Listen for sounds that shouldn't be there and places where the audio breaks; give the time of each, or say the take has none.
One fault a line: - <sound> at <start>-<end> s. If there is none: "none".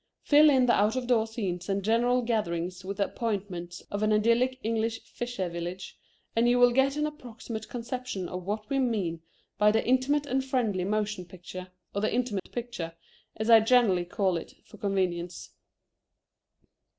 - dropout at 12.4-12.5 s